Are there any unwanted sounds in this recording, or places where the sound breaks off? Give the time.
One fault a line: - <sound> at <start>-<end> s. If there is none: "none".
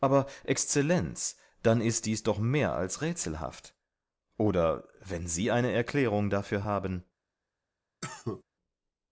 - cough at 8.0-8.4 s